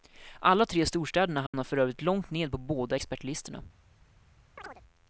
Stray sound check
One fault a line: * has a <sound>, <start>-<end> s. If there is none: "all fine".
* has a dropout, 1.5-1.5 s
* has a chirp, 4.6-4.8 s